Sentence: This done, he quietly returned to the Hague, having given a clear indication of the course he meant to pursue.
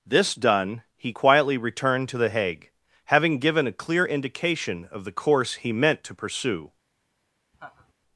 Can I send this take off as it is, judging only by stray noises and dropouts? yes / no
no